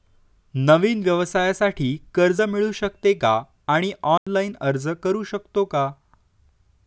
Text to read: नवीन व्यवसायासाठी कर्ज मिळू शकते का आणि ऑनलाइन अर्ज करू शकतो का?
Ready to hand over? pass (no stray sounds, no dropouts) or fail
fail